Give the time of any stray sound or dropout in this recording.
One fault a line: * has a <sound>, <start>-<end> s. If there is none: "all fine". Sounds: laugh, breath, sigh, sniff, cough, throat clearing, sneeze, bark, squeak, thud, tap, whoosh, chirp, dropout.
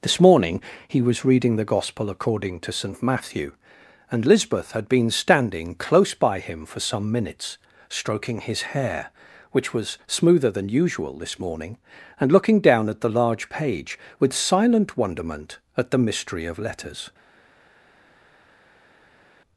all fine